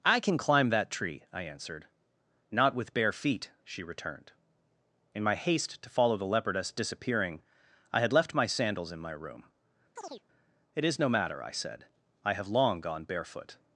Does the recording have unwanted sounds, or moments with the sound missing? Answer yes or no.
yes